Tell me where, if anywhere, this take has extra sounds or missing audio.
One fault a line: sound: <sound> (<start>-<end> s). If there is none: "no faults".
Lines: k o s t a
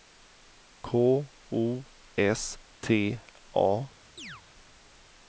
sound: chirp (4.2-4.4 s)